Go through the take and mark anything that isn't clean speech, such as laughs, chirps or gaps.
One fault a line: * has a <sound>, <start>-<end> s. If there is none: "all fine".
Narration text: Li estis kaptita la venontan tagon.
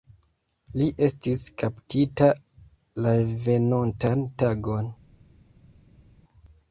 all fine